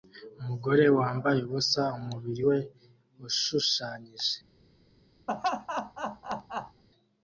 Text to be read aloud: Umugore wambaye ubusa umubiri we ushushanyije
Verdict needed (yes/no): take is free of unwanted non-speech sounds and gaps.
no